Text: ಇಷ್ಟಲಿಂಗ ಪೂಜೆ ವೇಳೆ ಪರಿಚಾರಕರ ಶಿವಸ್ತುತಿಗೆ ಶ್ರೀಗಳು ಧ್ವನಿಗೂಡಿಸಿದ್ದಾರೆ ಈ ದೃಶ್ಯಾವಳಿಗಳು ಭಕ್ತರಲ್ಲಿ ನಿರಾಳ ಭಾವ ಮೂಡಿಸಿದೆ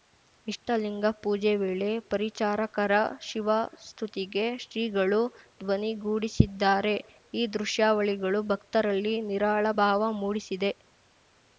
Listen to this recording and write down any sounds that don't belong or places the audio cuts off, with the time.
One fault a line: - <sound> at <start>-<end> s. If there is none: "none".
none